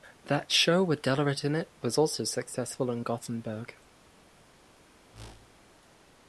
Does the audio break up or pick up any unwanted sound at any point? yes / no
yes